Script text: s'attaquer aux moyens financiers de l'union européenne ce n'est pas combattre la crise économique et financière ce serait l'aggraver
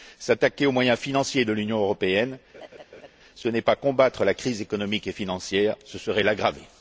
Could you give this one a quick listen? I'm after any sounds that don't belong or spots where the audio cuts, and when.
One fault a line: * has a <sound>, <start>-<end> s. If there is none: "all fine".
* has a laugh, 2.5-3.1 s